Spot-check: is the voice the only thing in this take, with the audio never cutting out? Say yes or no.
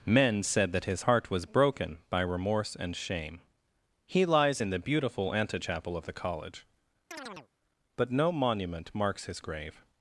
no